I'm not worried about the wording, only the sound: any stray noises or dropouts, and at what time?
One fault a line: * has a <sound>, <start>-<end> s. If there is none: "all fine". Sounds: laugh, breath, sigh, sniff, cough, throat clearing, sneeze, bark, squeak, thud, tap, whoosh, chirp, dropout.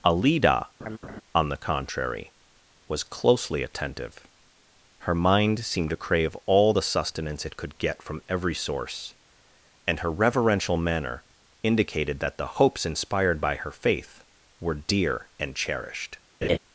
* has a laugh, 0.8-1.2 s
* has a laugh, 16.4-16.6 s